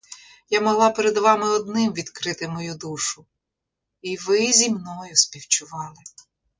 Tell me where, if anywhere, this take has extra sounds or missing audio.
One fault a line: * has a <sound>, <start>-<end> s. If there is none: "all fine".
all fine